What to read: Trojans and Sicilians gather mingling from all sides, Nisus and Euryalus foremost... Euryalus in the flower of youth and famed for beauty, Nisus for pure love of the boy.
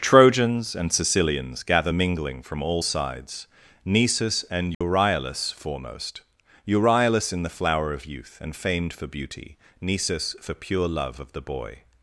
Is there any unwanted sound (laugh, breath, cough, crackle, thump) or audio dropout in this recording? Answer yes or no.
yes